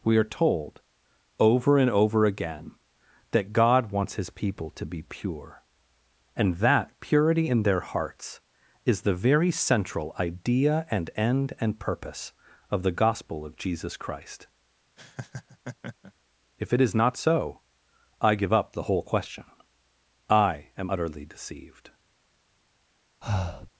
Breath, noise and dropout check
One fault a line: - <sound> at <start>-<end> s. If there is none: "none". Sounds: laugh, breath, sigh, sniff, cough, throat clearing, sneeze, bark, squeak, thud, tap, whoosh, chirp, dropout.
- laugh at 15.0-16.1 s
- breath at 23.2-23.7 s